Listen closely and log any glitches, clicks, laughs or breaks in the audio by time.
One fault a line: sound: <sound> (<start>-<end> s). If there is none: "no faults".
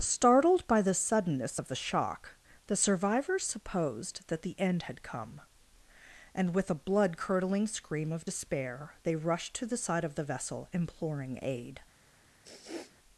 sound: sniff (12.4-13.0 s)